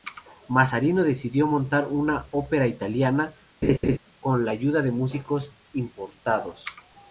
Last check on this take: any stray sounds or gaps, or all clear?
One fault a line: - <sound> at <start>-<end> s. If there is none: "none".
- laugh at 3.6-4.0 s